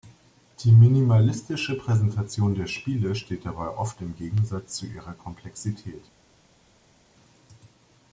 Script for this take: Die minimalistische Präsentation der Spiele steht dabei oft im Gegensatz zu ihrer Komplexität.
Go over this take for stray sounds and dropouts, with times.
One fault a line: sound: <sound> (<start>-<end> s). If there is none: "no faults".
no faults